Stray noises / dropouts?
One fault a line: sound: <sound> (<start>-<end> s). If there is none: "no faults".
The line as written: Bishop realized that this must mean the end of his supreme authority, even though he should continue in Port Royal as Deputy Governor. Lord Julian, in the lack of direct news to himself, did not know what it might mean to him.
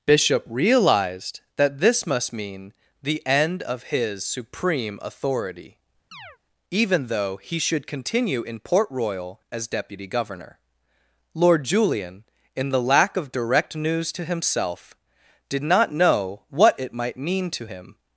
sound: chirp (6.1-6.4 s)